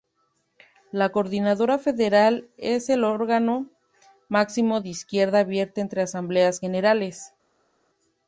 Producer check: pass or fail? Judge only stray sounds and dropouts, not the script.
pass